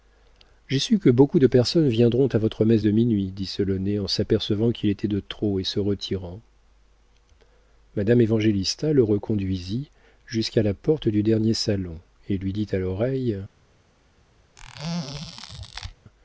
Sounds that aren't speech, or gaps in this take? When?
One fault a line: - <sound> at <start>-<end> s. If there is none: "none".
- squeak at 14.6-15.9 s